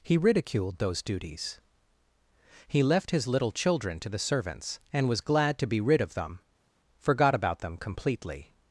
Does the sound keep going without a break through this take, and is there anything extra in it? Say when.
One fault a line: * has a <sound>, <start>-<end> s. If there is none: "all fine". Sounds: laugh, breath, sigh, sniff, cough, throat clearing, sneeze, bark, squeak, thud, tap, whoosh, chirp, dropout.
all fine